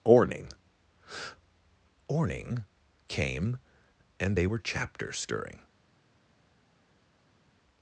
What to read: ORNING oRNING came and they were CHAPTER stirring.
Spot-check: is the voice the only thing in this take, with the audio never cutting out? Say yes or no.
yes